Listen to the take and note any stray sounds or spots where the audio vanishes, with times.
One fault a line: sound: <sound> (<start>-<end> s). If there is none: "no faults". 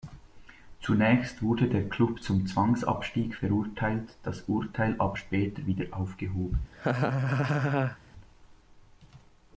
sound: laugh (6.7-8.0 s)